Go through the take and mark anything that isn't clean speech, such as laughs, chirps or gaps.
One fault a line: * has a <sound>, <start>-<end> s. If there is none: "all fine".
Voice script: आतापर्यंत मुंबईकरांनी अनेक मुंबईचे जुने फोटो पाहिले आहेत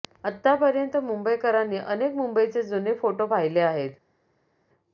all fine